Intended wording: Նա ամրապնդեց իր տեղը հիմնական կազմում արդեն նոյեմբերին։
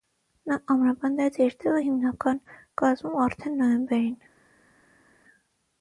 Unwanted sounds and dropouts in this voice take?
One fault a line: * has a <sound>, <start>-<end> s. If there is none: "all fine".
all fine